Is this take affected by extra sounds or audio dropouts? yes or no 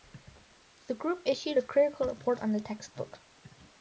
no